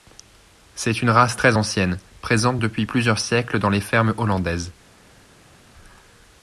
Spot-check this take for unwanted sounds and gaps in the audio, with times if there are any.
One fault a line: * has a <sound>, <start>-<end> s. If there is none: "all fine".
all fine